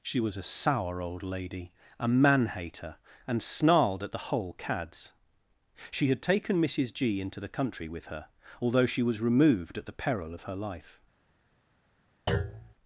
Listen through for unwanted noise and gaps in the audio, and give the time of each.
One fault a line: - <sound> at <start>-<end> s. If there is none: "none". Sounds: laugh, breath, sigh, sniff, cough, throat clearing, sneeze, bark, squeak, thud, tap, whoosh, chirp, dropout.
- thud at 12.3-12.7 s